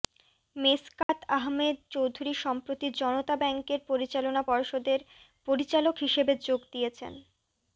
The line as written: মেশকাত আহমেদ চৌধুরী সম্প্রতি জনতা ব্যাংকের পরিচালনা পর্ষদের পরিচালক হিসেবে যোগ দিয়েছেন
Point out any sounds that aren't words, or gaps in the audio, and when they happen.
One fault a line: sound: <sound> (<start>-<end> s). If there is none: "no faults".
sound: dropout (1.0-1.1 s)